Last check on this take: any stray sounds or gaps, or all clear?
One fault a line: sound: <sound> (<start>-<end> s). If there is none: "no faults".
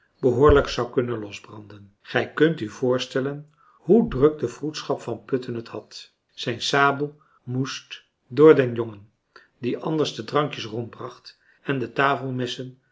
no faults